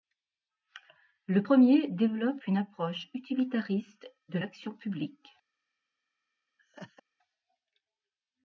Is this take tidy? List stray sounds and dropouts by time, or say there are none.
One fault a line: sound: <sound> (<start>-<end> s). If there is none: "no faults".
sound: laugh (6.6-7.0 s)